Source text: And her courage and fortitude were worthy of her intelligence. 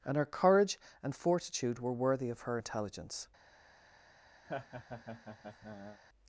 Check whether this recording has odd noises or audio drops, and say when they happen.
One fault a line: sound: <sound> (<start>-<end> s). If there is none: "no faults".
sound: laugh (4.4-6.0 s)